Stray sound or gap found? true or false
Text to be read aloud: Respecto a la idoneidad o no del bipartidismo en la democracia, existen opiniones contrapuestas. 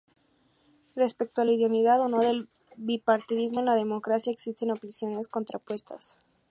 false